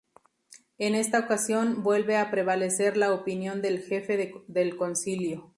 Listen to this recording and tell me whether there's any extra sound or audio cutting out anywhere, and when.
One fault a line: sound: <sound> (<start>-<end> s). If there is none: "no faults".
no faults